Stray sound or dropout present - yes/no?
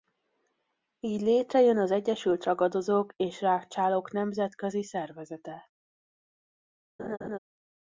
yes